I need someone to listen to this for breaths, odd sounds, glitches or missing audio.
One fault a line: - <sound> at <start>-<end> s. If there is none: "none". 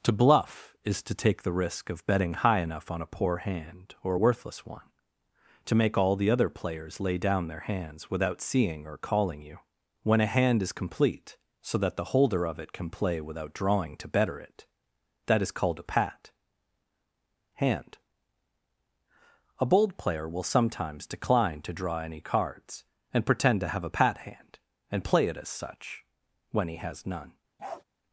- bark at 27.6-27.8 s